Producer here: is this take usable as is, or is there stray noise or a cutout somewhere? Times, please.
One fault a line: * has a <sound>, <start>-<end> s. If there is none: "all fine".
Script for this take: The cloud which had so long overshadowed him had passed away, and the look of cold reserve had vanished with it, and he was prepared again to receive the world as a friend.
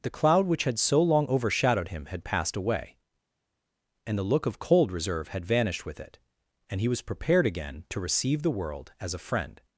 all fine